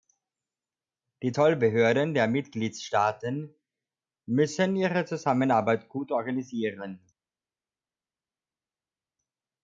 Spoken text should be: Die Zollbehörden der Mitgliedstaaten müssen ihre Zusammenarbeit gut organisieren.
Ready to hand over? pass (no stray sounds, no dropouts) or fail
pass